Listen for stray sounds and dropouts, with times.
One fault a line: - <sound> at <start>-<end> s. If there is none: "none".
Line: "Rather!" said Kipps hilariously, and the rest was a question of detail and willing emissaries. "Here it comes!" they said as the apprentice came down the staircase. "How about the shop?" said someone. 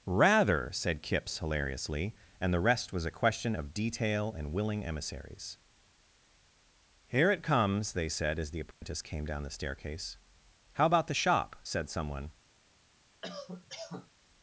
- dropout at 8.7-8.8 s
- cough at 13.2-14.1 s